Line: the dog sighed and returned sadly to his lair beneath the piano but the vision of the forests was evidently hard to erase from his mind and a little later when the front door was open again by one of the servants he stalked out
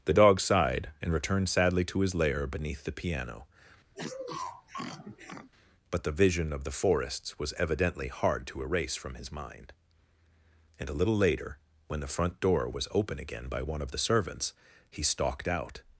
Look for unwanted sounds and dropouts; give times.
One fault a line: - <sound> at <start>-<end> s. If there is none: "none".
- sniff at 3.9-5.5 s